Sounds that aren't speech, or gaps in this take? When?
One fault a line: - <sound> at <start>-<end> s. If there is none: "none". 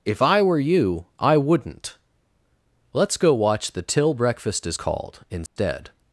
- dropout at 5.5-5.6 s